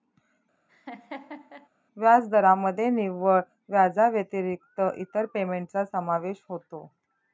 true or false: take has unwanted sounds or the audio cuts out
true